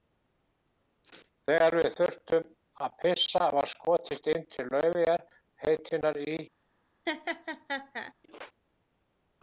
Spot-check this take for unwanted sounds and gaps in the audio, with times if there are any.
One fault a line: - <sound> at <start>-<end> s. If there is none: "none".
- laugh at 7.1-8.1 s